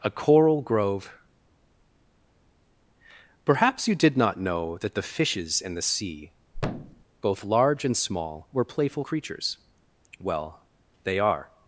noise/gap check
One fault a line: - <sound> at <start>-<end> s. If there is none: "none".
- thud at 6.5-7.0 s